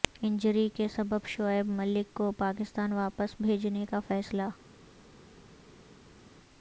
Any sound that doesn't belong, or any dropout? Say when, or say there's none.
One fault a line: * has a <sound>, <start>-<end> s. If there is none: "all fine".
all fine